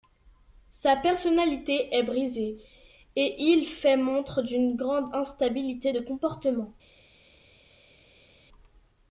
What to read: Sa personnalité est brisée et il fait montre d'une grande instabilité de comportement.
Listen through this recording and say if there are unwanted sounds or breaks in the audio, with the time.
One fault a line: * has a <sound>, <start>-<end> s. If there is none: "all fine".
all fine